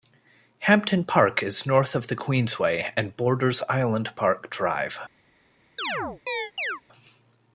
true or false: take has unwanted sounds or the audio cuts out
true